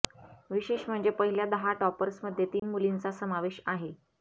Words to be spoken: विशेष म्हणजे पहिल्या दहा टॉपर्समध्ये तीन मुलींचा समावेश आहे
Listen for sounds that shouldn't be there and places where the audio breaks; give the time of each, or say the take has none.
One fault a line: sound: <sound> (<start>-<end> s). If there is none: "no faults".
sound: dropout (2.6-2.6 s)